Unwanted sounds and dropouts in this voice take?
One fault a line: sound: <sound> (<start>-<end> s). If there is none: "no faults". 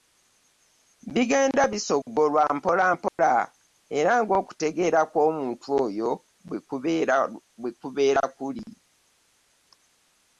sound: dropout (3.1-3.2 s)